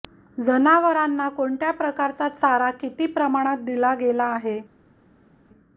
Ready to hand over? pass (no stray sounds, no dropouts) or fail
pass